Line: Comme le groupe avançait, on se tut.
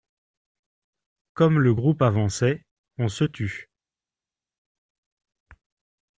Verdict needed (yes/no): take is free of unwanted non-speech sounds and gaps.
yes